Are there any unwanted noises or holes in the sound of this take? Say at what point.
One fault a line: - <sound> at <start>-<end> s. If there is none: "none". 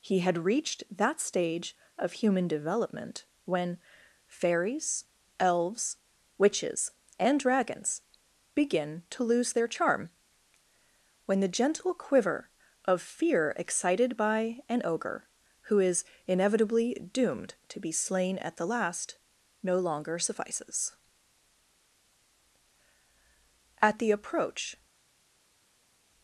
none